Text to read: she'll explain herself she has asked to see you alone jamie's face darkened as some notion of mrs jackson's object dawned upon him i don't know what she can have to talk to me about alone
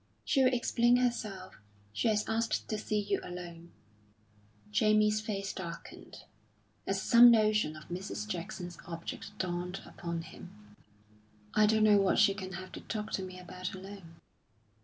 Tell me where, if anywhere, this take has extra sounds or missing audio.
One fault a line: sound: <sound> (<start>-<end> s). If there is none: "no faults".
no faults